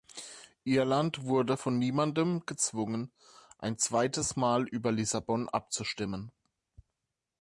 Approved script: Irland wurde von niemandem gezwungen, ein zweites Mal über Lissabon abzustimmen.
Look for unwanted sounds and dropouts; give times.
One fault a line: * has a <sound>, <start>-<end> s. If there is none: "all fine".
all fine